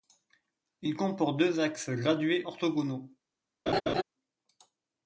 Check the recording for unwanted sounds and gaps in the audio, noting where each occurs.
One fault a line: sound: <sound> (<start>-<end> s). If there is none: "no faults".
sound: laugh (3.7-4.0 s)